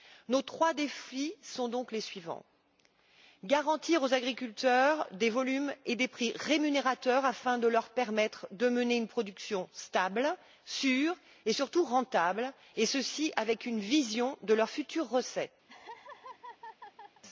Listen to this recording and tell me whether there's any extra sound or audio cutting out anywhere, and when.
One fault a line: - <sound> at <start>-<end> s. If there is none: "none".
- laugh at 15.7-17.2 s